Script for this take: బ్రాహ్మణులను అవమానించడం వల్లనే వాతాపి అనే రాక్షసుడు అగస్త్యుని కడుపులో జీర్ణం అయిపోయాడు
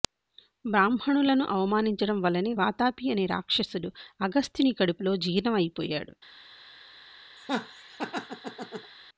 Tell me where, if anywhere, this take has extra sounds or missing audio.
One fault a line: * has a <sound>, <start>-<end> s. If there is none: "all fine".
* has a laugh, 7.4-8.9 s